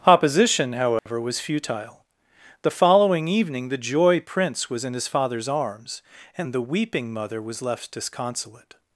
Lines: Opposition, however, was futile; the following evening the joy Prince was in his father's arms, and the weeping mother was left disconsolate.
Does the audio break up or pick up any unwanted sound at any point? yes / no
yes